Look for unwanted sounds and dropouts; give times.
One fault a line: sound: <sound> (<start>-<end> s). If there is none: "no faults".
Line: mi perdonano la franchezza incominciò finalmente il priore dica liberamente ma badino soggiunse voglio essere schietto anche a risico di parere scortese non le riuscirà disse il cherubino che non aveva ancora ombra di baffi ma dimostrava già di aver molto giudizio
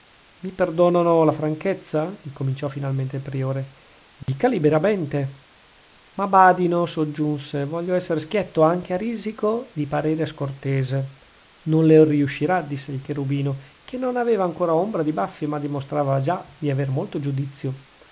sound: dropout (4.2-4.3 s)